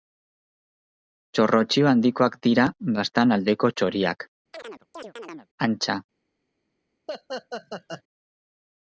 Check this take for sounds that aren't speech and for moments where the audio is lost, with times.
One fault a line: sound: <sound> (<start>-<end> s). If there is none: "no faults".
sound: chirp (4.5-5.5 s)
sound: laugh (7.1-8.0 s)